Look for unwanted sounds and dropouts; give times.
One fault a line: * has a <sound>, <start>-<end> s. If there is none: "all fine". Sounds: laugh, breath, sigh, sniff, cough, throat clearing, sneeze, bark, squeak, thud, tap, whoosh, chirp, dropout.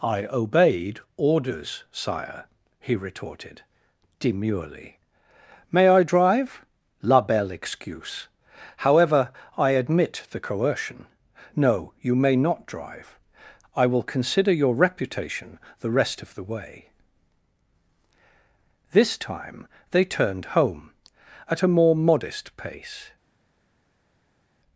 all fine